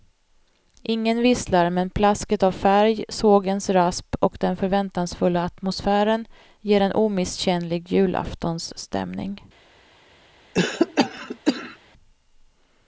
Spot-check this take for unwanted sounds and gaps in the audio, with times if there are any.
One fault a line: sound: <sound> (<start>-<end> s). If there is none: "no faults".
sound: cough (10.5-11.8 s)